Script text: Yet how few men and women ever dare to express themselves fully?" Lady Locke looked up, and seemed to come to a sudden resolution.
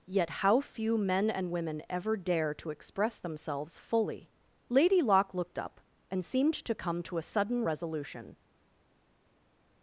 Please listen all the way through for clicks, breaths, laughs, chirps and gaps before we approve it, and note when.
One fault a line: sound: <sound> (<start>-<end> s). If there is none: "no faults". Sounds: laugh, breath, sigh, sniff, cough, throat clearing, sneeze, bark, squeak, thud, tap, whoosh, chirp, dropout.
no faults